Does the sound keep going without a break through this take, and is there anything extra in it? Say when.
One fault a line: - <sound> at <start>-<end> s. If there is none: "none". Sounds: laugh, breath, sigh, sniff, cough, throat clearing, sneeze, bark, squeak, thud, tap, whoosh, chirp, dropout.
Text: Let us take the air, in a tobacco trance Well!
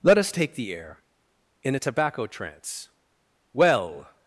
none